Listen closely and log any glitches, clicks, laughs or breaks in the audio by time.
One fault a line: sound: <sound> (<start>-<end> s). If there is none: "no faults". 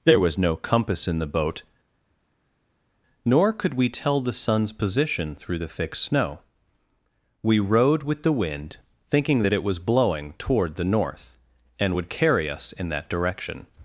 no faults